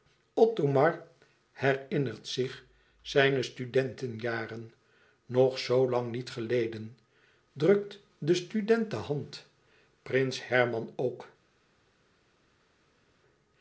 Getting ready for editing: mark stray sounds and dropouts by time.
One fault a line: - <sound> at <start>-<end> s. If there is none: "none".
none